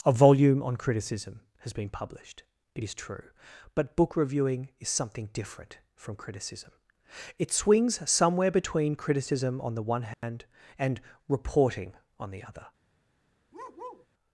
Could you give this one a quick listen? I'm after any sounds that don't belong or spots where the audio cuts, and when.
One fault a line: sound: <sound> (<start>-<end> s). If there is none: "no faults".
sound: dropout (10.1-10.2 s)
sound: bark (13.5-14.1 s)